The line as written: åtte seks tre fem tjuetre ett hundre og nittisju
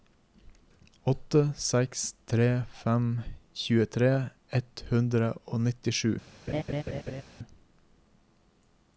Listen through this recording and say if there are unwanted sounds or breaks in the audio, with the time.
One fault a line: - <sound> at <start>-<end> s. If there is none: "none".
- laugh at 6.5-7.2 s